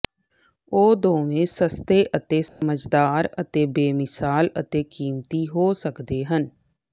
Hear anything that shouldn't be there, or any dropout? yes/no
yes